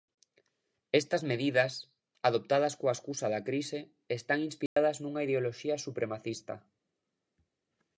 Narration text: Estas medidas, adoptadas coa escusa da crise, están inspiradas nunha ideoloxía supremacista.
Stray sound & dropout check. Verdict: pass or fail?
fail